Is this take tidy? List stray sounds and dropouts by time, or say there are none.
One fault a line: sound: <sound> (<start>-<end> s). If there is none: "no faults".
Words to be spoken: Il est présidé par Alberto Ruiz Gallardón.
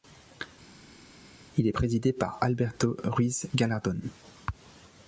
no faults